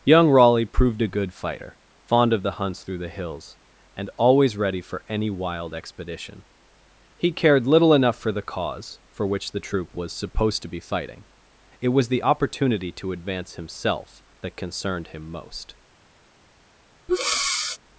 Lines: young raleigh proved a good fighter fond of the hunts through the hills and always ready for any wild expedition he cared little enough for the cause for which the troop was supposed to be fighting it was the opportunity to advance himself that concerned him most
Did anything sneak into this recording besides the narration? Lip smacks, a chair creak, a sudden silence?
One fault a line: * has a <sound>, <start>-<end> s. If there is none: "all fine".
* has a breath, 17.1-17.8 s